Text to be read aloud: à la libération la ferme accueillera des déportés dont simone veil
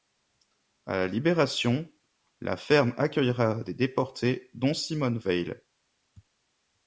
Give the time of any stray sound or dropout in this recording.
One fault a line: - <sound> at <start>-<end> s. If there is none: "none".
none